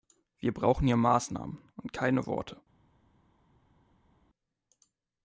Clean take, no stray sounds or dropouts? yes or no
yes